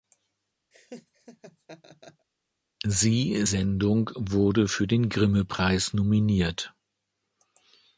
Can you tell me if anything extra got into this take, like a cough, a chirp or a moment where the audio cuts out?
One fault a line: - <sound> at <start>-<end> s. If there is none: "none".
- laugh at 0.7-2.3 s